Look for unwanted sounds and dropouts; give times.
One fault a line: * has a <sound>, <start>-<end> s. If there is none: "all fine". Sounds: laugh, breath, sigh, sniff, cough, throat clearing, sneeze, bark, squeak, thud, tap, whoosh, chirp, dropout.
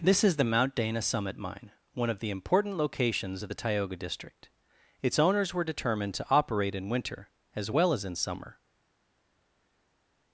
all fine